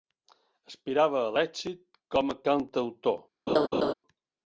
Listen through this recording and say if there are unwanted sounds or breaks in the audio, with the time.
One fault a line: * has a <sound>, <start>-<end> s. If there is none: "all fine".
* has a laugh, 3.5-3.9 s